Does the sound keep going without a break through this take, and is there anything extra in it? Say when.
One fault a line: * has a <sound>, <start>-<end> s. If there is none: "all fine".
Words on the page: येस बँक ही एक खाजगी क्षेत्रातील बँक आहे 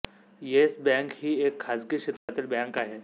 * has a dropout, 2.2-2.3 s